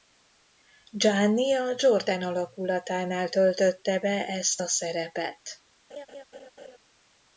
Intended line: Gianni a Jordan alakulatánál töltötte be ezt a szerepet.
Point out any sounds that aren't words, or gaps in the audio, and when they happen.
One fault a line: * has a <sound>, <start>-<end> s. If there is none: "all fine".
* has a laugh, 5.9-6.8 s